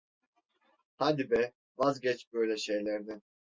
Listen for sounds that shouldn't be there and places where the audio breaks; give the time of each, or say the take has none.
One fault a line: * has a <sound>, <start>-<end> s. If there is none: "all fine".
all fine